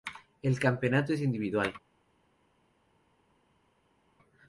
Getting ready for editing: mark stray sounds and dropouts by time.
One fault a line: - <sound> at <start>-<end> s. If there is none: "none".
none